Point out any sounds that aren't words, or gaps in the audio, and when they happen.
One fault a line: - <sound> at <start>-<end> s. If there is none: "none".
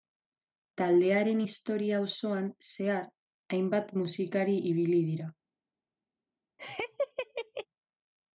- laugh at 6.6-7.7 s